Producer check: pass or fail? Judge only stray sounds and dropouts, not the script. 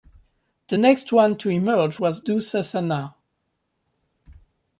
pass